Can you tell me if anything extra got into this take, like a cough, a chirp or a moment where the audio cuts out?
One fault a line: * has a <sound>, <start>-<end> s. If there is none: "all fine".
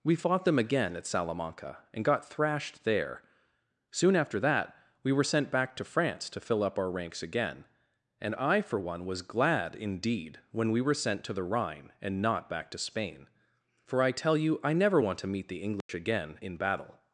* has a dropout, 15.8-15.9 s